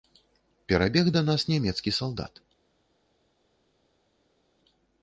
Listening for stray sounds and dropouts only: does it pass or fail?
pass